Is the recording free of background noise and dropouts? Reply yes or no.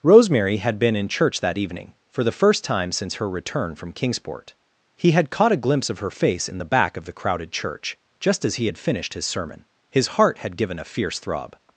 yes